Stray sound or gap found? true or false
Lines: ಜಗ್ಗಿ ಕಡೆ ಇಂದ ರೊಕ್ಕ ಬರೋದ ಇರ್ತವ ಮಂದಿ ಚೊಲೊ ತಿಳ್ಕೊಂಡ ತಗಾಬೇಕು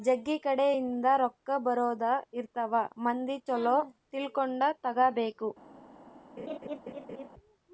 true